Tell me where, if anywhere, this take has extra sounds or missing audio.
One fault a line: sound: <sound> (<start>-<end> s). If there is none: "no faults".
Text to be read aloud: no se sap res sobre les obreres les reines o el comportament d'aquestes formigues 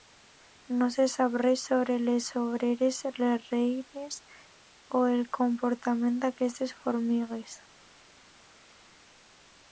no faults